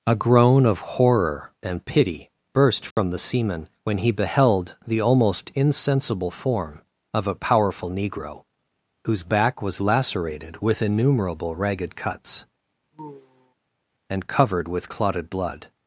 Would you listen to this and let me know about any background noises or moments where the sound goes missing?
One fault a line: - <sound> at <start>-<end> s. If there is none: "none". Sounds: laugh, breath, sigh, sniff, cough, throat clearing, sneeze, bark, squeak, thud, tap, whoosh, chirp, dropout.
- dropout at 2.9-3.0 s
- sigh at 12.9-13.5 s